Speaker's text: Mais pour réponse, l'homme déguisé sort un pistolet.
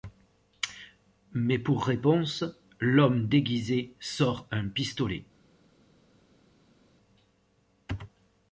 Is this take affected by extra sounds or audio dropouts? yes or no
no